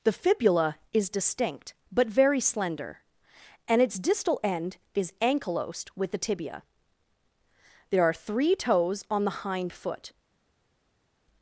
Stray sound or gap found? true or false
false